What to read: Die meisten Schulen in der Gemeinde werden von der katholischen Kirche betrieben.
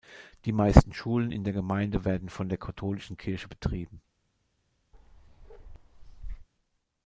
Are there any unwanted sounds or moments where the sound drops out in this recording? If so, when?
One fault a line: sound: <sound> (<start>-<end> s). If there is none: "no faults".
sound: bark (4.9-6.5 s)